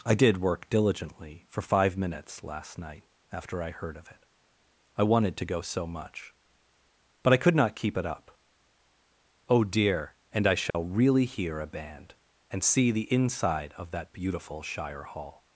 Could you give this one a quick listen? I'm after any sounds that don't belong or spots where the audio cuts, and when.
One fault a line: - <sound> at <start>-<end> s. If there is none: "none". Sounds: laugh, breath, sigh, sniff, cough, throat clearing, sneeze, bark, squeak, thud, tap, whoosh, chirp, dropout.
- dropout at 10.7-10.7 s